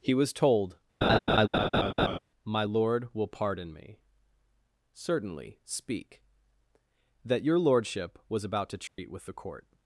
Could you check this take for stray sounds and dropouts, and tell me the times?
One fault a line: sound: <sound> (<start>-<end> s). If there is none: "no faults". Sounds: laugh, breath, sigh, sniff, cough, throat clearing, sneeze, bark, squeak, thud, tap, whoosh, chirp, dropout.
sound: laugh (1.0-2.2 s)
sound: dropout (8.9-9.0 s)